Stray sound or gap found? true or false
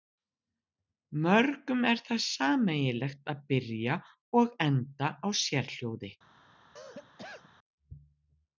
true